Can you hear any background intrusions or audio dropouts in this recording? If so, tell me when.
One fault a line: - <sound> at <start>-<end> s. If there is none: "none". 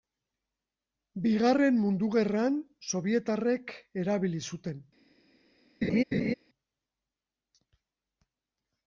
- laugh at 5.8-6.3 s